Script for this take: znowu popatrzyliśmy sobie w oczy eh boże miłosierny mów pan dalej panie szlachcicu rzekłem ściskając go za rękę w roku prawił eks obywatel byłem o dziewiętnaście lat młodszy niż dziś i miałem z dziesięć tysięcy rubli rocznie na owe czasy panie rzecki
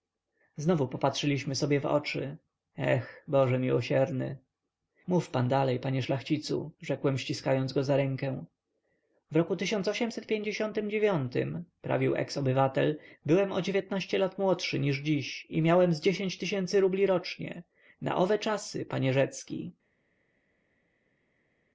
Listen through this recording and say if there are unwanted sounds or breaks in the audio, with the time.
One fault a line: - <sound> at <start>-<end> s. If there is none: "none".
none